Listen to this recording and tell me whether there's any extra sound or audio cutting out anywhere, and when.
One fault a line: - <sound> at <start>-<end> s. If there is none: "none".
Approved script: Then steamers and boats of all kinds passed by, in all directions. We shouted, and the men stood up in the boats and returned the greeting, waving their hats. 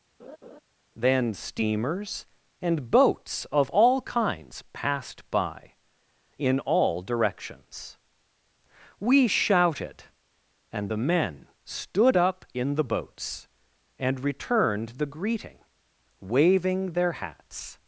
- laugh at 0.2-0.6 s